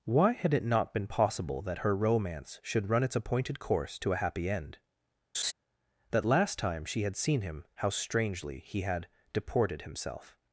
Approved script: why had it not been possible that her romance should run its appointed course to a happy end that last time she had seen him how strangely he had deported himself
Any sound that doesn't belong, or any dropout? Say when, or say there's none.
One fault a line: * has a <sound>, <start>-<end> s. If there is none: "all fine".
* has a laugh, 5.3-5.5 s